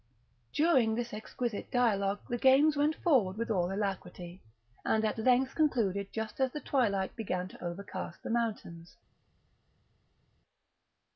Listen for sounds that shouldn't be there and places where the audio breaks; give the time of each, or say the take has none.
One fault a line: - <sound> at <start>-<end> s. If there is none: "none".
none